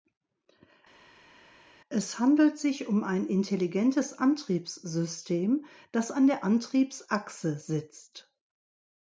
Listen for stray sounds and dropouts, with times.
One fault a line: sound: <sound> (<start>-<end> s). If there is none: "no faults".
no faults